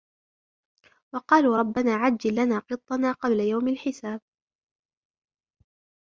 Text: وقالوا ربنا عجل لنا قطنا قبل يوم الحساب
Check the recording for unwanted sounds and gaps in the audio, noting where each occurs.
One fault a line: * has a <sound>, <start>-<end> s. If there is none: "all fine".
all fine